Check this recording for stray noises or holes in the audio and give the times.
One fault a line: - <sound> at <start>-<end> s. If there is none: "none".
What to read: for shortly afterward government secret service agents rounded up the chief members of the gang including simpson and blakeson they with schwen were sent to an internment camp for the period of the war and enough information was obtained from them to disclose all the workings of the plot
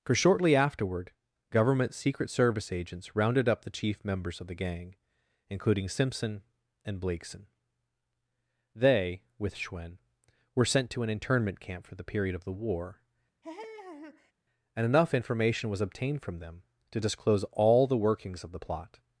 - laugh at 13.4-14.3 s